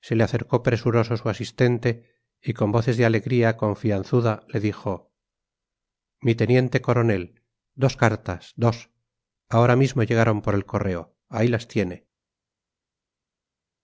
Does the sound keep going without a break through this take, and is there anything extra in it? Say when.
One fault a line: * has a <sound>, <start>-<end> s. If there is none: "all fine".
all fine